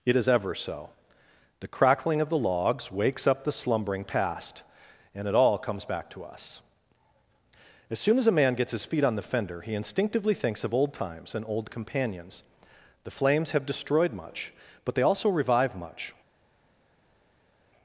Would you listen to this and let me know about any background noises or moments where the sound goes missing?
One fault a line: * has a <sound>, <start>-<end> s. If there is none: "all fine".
all fine